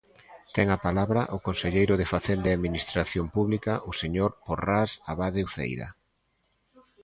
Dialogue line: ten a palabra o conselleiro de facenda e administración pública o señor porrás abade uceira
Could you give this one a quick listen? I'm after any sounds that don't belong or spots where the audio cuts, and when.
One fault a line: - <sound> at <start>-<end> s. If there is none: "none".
none